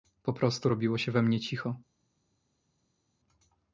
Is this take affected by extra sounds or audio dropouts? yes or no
no